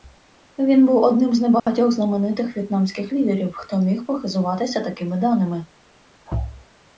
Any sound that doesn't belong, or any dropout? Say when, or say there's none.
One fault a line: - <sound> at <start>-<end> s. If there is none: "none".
- dropout at 1.6-1.7 s